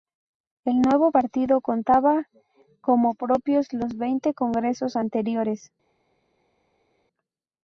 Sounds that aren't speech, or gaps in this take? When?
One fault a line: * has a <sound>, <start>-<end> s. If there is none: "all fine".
all fine